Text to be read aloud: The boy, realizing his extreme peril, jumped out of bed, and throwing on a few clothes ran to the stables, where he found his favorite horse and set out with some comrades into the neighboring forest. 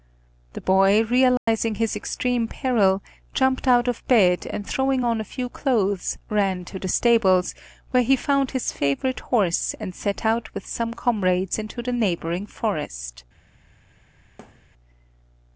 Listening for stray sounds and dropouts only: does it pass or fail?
fail